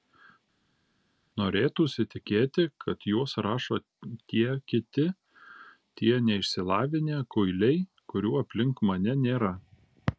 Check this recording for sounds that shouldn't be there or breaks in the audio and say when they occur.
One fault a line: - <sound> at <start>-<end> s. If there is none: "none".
none